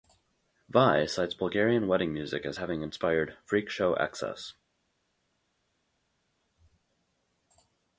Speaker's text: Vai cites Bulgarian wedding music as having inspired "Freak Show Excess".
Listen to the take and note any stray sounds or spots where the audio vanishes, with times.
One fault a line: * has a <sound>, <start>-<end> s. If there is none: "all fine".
all fine